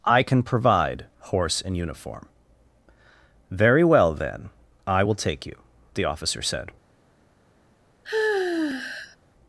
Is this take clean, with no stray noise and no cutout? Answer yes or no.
no